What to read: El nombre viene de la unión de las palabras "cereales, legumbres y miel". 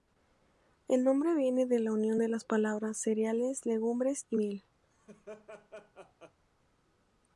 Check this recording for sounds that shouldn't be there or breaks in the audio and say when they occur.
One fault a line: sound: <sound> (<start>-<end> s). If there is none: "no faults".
sound: laugh (4.8-6.4 s)